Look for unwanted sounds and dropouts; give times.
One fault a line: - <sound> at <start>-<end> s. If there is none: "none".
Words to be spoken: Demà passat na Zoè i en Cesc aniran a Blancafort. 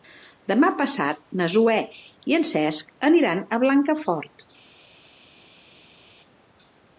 none